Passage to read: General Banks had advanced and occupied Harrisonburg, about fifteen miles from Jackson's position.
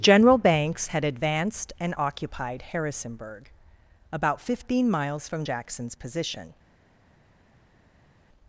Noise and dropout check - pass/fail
pass